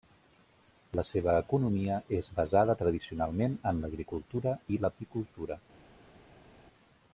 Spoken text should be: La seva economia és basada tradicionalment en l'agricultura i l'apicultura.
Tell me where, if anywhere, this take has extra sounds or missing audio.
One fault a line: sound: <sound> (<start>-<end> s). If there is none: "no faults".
no faults